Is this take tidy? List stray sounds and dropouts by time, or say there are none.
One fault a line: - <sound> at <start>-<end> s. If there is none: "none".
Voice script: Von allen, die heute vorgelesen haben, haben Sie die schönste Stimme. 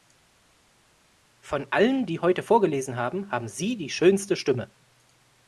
none